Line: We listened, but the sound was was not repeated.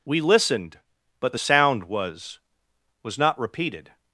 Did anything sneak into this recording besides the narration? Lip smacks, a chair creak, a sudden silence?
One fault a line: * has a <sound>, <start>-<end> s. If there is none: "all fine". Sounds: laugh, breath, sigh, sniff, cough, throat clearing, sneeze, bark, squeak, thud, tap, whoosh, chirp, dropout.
all fine